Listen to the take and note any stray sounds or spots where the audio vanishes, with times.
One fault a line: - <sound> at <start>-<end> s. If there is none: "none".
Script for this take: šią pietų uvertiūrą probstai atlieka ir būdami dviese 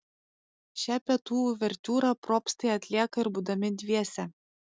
none